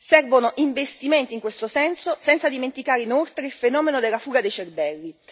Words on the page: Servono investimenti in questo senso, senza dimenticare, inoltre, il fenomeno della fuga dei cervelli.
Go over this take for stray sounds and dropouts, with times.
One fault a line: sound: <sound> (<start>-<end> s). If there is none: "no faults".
no faults